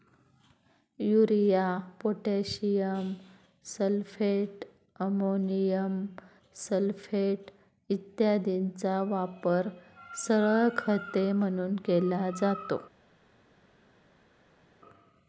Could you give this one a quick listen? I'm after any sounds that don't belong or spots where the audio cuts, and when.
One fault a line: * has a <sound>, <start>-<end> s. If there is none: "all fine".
all fine